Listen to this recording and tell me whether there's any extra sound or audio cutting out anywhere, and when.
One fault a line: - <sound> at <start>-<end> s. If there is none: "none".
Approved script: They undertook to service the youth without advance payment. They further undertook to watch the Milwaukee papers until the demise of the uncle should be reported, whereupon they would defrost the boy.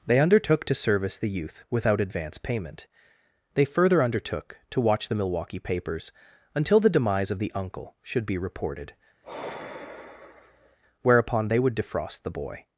- sigh at 9.2-10.8 s